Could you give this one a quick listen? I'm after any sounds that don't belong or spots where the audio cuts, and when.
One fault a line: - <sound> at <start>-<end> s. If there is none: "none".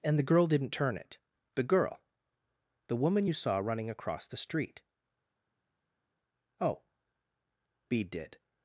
none